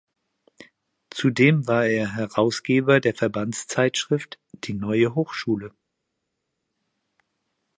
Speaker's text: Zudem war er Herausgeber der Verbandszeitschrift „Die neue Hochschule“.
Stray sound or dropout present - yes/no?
no